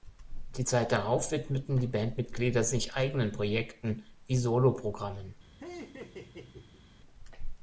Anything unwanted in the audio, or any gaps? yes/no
yes